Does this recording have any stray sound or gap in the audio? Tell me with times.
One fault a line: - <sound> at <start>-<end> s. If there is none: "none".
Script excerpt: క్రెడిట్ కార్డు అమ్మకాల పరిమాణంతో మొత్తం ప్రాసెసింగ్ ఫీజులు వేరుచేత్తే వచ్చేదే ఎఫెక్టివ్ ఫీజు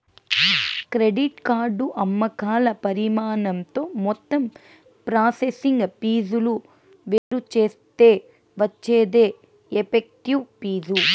- dropout at 7.2-7.3 s